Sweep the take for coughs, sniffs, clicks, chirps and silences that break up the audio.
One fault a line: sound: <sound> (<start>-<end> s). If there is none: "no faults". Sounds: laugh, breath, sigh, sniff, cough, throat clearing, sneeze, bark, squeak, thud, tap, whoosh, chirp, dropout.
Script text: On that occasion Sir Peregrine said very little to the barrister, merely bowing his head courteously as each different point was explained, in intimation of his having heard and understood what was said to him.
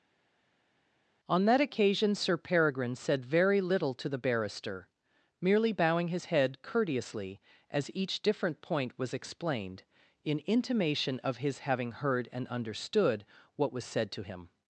no faults